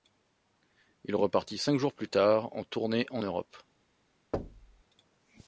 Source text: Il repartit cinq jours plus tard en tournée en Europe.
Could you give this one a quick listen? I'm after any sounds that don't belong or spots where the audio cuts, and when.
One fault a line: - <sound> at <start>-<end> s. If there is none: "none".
- thud at 4.3-4.8 s